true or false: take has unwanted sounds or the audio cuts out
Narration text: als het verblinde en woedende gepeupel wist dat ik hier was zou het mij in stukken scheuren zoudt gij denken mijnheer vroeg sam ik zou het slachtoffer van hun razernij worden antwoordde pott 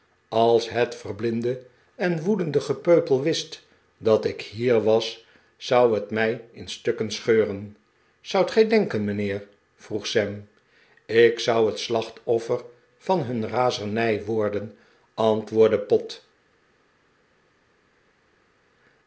false